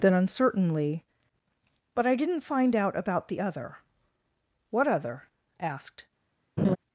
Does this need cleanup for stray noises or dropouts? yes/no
yes